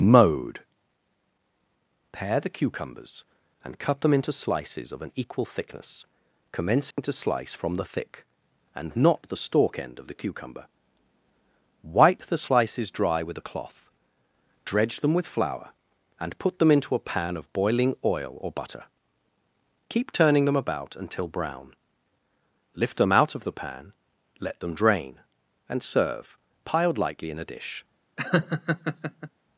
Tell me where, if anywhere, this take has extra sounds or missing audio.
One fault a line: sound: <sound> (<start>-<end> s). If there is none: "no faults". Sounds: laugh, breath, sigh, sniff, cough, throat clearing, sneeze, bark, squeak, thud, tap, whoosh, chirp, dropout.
sound: dropout (6.9-7.0 s)
sound: laugh (28.2-29.3 s)